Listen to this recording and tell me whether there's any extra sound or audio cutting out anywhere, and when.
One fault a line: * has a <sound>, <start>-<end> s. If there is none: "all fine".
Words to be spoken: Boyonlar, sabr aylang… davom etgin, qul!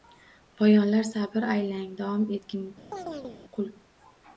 * has a chirp, 2.9-3.4 s